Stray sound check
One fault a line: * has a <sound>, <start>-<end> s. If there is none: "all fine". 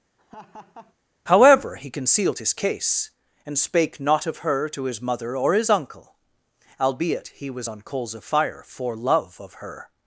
* has a laugh, 0.2-1.0 s